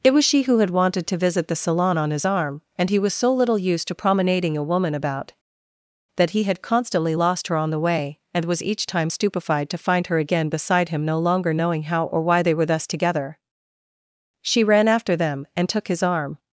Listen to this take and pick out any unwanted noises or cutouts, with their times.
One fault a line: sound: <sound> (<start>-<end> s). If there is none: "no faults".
no faults